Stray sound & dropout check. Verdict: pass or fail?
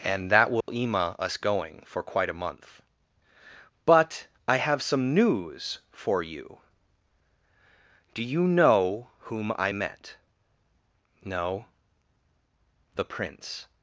fail